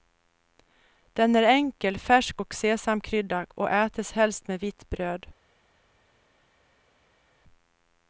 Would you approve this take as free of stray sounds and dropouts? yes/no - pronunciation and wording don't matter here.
yes